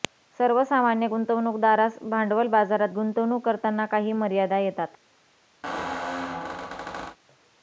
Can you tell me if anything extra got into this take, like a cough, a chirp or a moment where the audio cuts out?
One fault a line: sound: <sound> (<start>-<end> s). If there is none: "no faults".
sound: squeak (5.6-7.2 s)